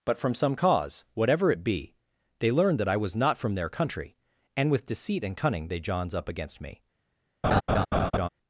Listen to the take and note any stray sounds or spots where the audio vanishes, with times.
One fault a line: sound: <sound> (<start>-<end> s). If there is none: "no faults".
sound: laugh (7.4-8.3 s)